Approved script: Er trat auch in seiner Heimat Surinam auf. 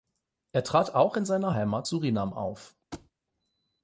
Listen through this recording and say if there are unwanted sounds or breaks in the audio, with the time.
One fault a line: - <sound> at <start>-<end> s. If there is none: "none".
- thud at 2.9-3.1 s